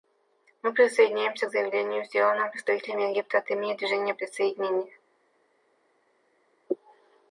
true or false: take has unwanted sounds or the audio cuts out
false